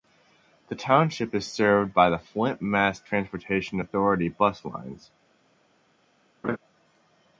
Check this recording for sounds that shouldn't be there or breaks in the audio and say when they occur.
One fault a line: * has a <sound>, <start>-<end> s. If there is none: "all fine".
* has a laugh, 6.4-6.6 s